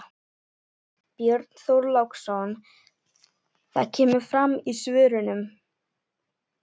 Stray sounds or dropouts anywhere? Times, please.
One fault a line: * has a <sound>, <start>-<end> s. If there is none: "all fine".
all fine